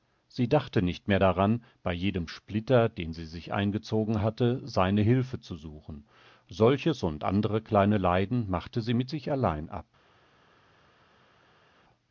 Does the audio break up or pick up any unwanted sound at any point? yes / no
no